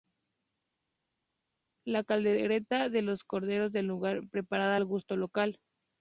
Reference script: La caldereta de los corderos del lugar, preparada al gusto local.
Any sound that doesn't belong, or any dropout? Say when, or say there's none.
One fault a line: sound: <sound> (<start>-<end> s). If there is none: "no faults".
no faults